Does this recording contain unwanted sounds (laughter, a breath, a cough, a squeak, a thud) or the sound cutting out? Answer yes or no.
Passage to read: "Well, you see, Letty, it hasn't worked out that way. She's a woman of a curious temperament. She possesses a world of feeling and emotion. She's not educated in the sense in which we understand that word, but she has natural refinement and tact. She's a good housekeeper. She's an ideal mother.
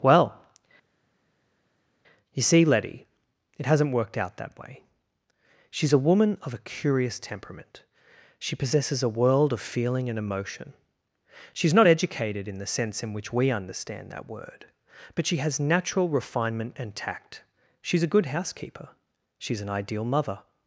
no